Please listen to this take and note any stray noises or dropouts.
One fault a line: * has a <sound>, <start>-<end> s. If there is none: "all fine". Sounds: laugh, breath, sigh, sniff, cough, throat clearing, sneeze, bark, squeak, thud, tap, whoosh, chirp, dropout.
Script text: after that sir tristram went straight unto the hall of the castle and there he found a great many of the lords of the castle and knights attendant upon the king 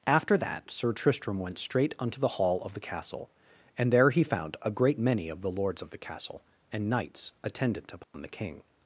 * has a dropout, 8.0-8.1 s